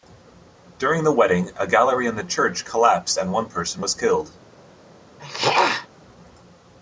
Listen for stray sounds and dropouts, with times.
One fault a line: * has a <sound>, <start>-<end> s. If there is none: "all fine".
* has a throat clearing, 5.2-5.9 s